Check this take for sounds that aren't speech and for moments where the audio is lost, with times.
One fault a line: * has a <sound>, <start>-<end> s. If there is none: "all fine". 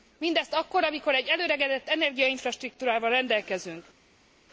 all fine